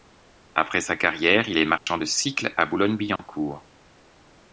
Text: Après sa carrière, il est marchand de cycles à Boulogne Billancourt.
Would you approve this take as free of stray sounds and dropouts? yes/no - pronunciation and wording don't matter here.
no